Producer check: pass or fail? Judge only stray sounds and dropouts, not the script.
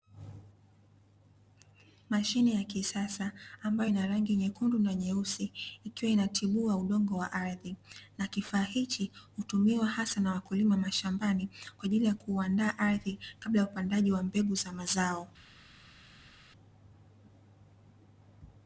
pass